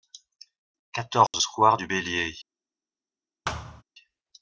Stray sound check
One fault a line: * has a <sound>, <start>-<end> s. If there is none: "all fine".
* has a dropout, 1.3-1.3 s
* has a thud, 3.4-3.8 s